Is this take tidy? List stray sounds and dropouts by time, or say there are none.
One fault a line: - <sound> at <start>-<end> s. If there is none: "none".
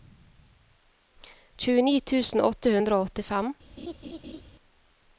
- laugh at 3.8-4.4 s